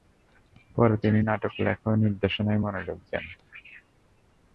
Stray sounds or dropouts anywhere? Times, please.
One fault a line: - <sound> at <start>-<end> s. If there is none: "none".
none